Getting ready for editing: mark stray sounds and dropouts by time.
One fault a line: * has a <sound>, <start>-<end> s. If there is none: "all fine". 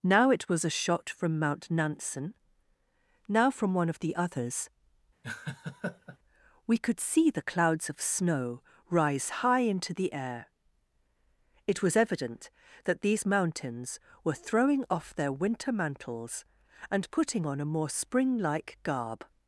* has a laugh, 5.2-6.2 s